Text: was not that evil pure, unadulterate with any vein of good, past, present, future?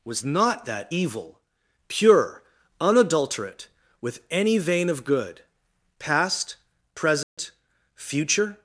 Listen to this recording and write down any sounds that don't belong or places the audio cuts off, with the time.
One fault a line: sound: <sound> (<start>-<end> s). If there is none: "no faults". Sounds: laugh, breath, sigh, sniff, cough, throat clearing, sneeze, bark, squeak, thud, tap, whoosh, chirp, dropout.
sound: dropout (7.2-7.4 s)